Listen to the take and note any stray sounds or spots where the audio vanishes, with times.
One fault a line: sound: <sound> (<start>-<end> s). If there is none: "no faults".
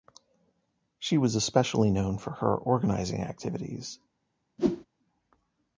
sound: whoosh (4.6-4.9 s)